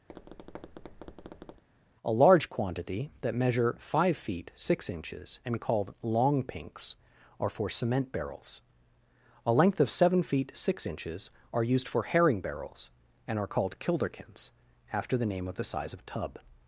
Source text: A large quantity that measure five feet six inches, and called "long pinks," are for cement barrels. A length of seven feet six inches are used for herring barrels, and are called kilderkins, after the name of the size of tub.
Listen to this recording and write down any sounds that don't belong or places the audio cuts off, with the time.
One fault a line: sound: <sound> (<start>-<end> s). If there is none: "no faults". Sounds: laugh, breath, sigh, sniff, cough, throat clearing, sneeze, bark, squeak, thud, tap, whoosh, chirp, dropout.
sound: tap (0.1-1.6 s)